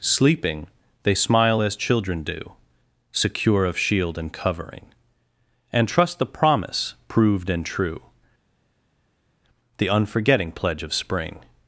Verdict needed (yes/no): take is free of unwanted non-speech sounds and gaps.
yes